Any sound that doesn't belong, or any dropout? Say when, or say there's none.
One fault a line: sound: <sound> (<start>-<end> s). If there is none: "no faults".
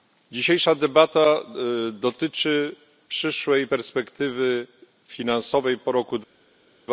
no faults